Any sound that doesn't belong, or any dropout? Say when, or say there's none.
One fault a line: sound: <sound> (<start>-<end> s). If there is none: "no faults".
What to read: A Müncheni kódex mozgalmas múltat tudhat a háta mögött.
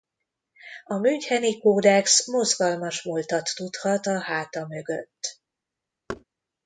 sound: thud (6.1-6.2 s)